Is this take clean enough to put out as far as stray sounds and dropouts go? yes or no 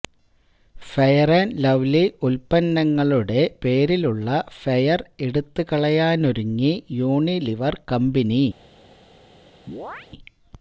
no